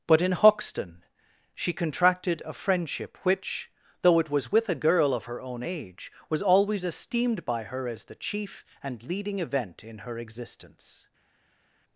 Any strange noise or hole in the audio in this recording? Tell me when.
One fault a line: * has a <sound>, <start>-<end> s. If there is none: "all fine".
all fine